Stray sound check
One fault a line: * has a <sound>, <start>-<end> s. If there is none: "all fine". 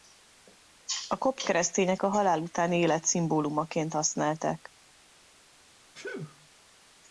* has a sneeze, 5.9-6.5 s